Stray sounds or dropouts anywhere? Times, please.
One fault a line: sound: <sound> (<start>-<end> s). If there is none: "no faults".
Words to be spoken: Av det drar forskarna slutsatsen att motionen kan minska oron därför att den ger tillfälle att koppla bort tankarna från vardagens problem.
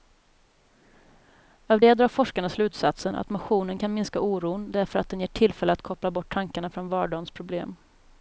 no faults